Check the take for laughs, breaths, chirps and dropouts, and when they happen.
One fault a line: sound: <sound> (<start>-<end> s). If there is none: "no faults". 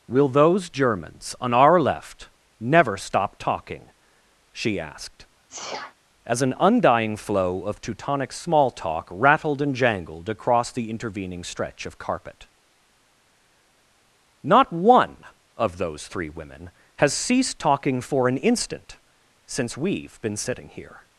sound: sneeze (5.5-6.0 s)